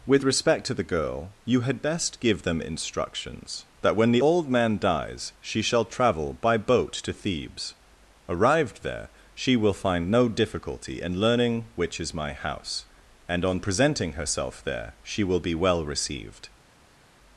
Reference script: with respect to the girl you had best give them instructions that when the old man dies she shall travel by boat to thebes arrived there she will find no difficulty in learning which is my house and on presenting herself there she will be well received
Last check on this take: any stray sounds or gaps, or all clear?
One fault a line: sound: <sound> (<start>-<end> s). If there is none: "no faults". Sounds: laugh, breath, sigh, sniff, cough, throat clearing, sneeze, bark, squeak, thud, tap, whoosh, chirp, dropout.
no faults